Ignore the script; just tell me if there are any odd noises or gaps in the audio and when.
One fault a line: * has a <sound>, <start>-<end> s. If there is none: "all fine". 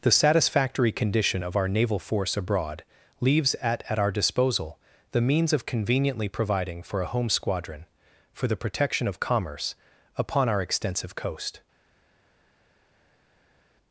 all fine